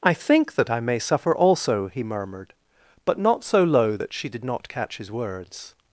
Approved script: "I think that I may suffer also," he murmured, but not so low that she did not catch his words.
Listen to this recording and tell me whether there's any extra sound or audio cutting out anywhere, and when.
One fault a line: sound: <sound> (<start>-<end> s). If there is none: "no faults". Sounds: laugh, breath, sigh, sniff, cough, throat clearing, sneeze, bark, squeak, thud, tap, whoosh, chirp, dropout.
no faults